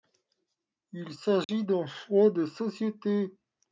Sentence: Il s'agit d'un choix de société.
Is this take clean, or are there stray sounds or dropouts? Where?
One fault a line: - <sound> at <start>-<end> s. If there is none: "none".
- dropout at 1.4-1.5 s